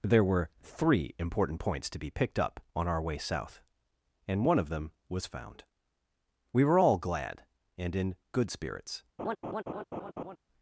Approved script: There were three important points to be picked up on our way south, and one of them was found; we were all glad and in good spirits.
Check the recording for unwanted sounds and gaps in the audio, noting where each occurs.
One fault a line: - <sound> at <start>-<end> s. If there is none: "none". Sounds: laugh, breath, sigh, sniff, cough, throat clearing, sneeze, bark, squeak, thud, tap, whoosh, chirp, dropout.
- laugh at 9.2-10.4 s